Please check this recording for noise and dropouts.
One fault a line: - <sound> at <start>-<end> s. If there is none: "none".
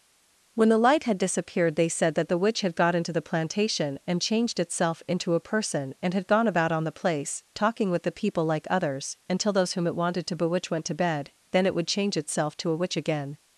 none